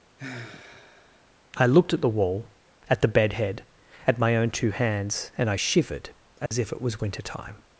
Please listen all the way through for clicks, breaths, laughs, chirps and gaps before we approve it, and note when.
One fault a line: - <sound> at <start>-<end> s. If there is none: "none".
- sigh at 0.2-1.3 s
- dropout at 6.5-6.5 s